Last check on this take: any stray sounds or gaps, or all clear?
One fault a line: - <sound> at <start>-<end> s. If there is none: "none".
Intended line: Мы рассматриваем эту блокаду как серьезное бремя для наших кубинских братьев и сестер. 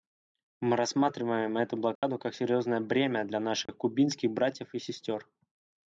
- dropout at 2.0-2.0 s
- dropout at 3.7-3.7 s